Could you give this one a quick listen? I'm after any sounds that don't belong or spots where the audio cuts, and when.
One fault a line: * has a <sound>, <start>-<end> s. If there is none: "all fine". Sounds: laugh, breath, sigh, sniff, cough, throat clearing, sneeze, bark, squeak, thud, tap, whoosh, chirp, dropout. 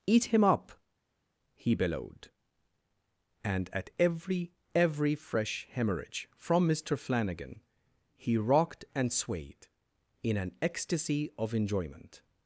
all fine